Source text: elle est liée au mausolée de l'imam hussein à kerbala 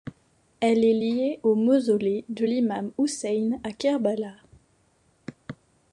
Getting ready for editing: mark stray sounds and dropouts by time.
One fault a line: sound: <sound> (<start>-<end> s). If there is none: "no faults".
no faults